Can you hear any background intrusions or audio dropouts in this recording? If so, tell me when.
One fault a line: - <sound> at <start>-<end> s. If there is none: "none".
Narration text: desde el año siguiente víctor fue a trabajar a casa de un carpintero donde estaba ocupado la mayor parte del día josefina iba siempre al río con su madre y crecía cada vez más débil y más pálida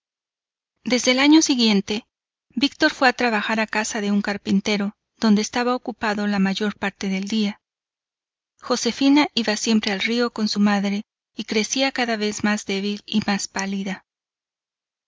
none